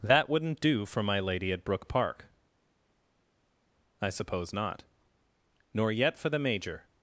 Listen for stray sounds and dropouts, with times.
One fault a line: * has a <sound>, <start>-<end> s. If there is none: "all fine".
all fine